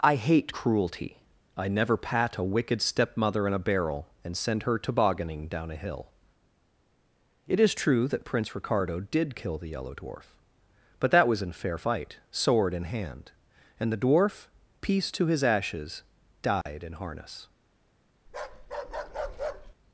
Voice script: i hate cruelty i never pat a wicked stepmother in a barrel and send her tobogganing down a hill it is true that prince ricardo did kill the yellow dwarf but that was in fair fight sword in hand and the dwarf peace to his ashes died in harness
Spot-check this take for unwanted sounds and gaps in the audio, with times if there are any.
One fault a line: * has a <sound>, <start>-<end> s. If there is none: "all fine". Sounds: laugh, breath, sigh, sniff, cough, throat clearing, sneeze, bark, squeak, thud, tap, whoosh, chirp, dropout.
* has a dropout, 16.6-16.7 s
* has a bark, 18.3-19.7 s